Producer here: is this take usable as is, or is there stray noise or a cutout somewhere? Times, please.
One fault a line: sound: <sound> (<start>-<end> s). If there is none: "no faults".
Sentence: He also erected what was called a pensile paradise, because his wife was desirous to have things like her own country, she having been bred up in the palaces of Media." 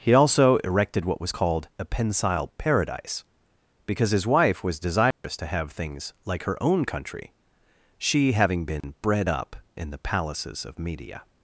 sound: dropout (5.1-5.2 s)
sound: dropout (8.8-8.8 s)